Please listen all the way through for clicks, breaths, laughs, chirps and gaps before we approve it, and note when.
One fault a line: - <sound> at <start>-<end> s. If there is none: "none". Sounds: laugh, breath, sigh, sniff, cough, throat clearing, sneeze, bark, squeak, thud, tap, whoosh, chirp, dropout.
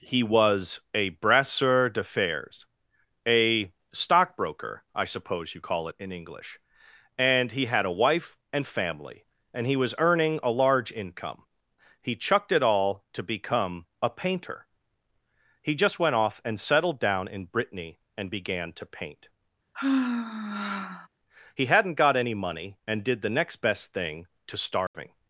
- sigh at 19.7-21.1 s
- dropout at 24.9-24.9 s